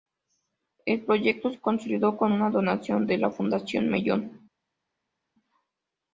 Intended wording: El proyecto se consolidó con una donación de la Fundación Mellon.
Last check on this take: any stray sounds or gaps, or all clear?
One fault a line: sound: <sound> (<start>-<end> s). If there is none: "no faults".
no faults